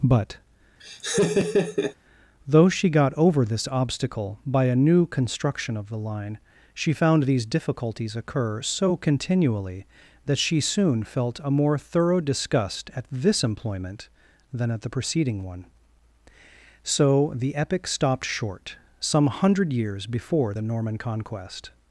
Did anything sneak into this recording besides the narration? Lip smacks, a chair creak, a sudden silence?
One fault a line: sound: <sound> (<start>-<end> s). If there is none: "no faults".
sound: laugh (0.8-2.0 s)